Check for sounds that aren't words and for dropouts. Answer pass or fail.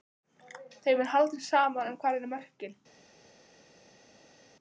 pass